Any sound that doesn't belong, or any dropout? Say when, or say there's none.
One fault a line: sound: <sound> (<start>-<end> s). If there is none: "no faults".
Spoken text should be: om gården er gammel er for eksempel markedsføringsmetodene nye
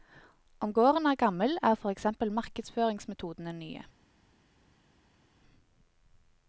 no faults